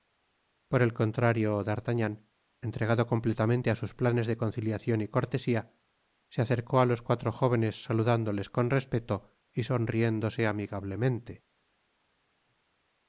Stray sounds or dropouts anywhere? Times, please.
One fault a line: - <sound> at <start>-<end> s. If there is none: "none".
none